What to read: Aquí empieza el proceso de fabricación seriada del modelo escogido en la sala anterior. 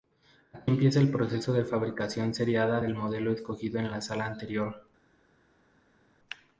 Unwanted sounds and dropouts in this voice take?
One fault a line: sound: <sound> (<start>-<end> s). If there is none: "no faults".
no faults